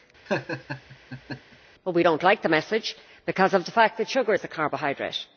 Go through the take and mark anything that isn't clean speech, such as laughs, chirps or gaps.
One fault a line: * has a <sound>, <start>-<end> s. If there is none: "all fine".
* has a laugh, 0.3-1.6 s